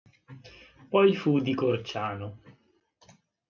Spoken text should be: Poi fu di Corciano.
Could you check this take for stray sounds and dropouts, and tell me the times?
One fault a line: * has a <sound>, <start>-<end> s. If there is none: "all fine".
all fine